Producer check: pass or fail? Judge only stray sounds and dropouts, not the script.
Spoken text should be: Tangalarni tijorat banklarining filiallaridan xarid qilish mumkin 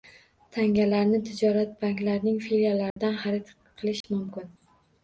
fail